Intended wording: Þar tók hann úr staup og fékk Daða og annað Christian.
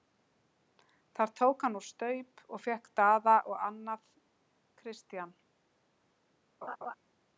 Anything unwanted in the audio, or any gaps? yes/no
yes